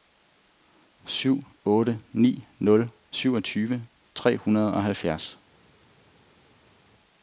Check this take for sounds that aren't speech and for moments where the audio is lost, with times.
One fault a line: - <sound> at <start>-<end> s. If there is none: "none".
none